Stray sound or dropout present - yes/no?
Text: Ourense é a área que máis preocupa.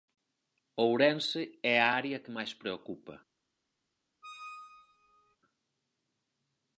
yes